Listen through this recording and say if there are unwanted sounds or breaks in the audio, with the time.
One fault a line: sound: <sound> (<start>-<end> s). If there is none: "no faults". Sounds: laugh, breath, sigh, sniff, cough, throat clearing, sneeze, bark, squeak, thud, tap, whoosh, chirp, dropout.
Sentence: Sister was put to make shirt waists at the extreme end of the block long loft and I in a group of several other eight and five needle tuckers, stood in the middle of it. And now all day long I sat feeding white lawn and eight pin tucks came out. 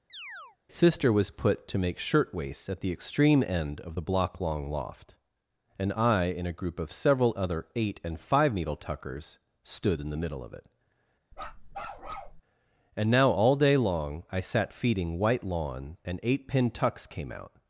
sound: chirp (0.1-0.6 s)
sound: bark (11.3-12.4 s)